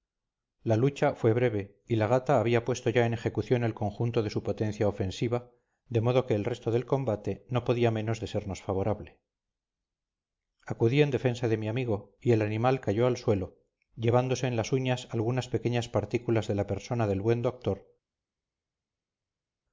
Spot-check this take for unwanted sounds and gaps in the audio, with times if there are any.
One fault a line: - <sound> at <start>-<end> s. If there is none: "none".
none